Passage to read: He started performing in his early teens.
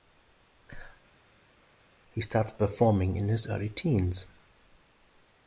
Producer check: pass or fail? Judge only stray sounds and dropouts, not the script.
pass